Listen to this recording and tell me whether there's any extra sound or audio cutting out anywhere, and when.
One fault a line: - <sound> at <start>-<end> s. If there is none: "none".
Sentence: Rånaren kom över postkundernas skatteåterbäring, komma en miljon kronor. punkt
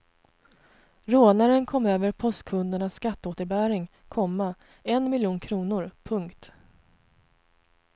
none